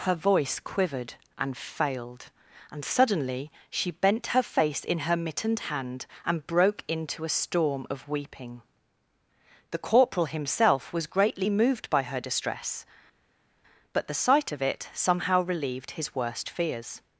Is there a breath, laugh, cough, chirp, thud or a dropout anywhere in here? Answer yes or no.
no